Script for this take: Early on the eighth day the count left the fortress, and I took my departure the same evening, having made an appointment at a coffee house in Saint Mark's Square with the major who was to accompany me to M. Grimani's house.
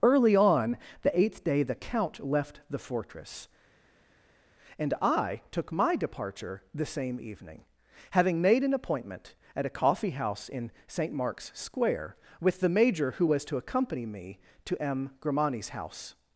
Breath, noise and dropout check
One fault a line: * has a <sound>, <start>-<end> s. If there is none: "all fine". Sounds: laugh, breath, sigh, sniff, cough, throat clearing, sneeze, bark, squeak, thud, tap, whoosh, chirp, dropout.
all fine